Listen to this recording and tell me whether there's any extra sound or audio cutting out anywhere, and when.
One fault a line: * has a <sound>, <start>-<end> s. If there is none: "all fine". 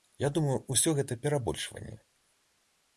all fine